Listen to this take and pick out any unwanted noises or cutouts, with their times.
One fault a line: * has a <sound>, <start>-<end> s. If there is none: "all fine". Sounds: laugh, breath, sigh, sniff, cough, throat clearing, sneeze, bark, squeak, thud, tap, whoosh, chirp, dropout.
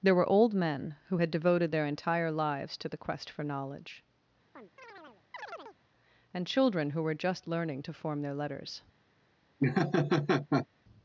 * has a chirp, 4.5-5.8 s
* has a laugh, 9.6-10.7 s